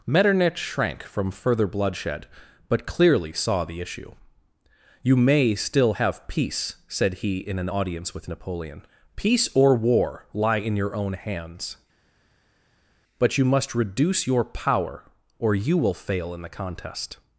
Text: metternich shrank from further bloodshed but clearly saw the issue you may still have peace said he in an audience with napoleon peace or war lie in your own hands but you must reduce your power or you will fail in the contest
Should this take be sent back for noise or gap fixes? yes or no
no